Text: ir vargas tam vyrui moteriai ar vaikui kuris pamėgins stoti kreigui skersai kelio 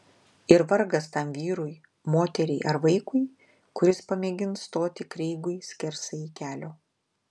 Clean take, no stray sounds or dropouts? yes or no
yes